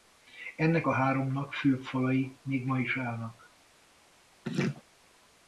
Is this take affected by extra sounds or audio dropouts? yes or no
yes